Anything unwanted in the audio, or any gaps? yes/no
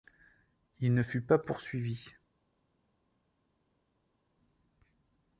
no